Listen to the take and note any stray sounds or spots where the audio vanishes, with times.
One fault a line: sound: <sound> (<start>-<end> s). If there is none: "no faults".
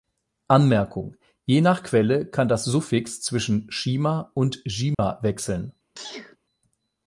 sound: dropout (4.9-5.0 s)
sound: sneeze (6.0-6.4 s)